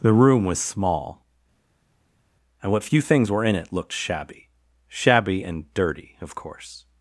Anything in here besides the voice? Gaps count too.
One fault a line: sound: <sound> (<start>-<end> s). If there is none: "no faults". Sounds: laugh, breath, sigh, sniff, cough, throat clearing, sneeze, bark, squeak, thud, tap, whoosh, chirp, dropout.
no faults